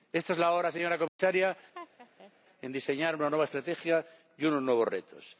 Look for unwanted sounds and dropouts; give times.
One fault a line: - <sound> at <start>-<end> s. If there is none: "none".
- dropout at 1.1-1.2 s
- laugh at 1.7-2.3 s